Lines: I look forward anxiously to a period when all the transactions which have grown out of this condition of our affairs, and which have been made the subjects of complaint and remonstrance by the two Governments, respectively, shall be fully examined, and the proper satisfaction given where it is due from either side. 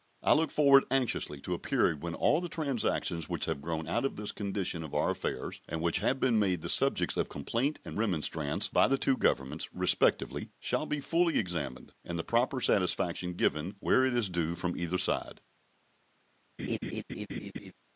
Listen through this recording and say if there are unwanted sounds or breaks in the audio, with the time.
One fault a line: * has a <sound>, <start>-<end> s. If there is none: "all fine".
* has a laugh, 16.6-17.7 s